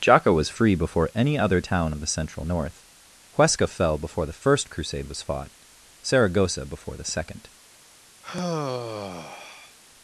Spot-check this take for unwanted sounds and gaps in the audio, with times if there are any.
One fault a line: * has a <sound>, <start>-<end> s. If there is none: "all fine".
* has a sigh, 8.2-9.8 s